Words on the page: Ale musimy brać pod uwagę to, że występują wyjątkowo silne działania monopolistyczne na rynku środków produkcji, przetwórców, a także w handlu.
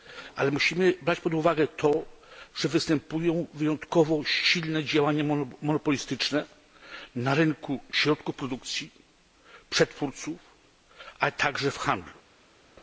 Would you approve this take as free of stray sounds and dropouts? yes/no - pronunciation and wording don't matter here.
yes